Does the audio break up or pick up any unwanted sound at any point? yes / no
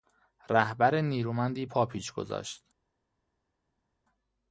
no